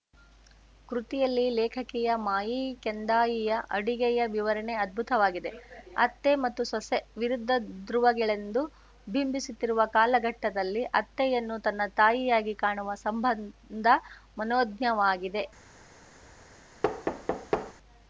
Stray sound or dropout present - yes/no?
yes